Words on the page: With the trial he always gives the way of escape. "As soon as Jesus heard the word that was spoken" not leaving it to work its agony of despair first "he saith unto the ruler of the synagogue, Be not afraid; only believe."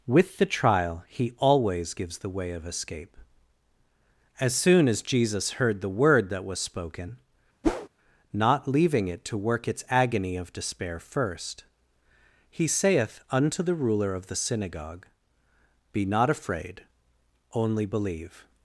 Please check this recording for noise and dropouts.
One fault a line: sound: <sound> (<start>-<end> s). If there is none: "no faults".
sound: whoosh (7.6-7.9 s)